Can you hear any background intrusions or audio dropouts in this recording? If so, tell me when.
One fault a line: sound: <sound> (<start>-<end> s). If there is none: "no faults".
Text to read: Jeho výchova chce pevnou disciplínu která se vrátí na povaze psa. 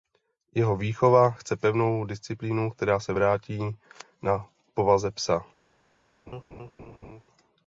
sound: laugh (6.3-7.2 s)